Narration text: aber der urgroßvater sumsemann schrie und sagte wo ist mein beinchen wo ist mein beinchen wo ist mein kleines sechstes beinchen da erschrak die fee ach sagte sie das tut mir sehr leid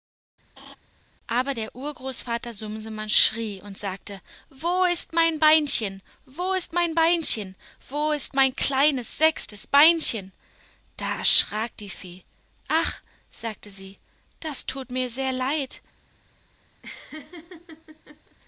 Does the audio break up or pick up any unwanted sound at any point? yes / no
yes